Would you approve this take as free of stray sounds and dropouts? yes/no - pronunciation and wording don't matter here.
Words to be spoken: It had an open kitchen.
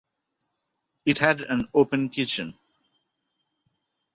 yes